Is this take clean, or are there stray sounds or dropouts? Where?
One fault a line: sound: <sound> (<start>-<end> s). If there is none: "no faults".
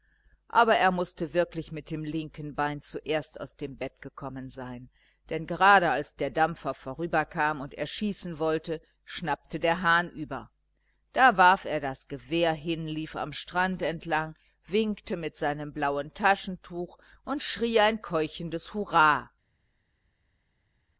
no faults